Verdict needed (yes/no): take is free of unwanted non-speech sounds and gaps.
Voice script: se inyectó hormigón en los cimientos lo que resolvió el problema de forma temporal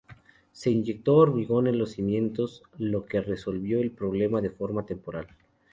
yes